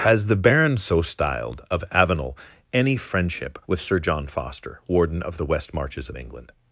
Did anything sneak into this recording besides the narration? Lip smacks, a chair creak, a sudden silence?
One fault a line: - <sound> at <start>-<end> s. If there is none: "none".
none